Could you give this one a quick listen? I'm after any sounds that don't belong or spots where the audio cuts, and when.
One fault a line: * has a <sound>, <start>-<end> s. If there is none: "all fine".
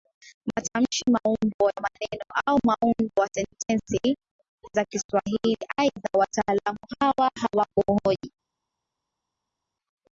all fine